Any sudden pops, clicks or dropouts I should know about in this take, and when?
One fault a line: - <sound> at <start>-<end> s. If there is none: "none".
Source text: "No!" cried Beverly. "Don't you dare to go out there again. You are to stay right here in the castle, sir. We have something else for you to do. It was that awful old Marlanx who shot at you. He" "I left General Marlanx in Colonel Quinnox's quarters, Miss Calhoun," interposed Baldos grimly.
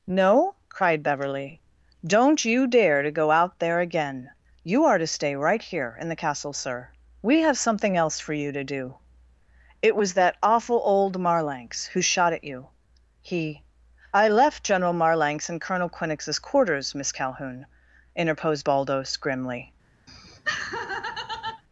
- laugh at 20.1-21.6 s